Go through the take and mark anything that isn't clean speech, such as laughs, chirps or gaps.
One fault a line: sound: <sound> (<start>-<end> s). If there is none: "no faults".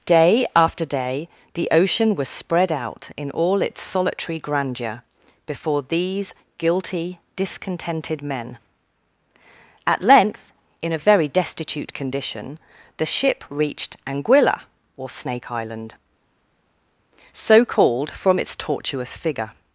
no faults